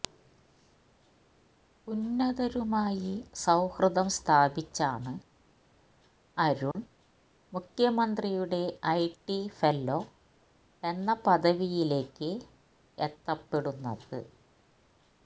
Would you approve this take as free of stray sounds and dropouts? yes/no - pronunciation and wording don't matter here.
no